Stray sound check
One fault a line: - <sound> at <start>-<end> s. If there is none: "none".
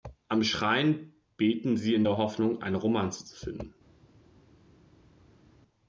none